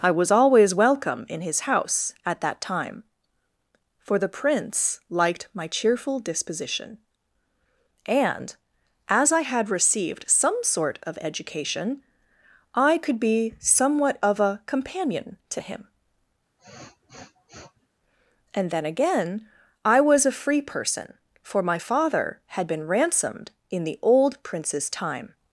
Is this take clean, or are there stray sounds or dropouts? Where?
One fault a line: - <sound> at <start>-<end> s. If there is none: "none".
- sniff at 16.6-17.9 s